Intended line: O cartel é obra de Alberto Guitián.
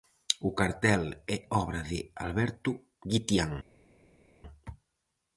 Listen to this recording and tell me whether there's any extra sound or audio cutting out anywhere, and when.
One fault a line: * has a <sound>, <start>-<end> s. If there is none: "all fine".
all fine